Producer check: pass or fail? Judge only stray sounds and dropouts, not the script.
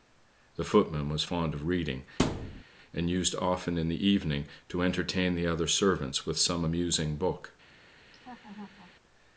fail